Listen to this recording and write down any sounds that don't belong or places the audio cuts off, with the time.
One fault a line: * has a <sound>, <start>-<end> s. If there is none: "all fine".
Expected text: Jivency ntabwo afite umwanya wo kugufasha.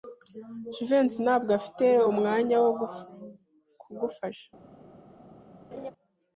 * has a laugh, 5.7-5.9 s